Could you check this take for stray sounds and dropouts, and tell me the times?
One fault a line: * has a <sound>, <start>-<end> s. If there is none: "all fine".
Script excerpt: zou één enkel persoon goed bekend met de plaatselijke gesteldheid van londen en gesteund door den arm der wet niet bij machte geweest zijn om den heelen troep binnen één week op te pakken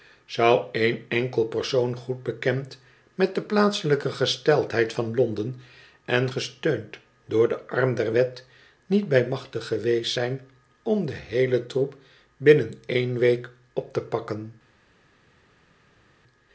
all fine